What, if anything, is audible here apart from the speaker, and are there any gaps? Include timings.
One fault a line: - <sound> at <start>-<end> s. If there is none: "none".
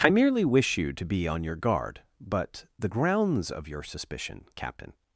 none